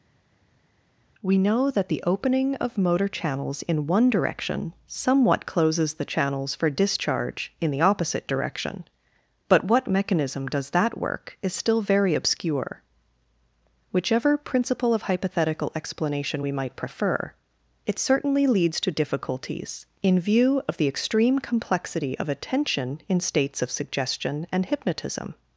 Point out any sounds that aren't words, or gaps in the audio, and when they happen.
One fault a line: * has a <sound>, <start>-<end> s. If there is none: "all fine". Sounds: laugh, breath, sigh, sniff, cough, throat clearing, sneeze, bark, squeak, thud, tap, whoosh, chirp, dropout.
all fine